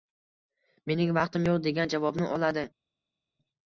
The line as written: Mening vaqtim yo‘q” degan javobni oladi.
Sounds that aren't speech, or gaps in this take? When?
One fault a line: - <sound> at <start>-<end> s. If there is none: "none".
none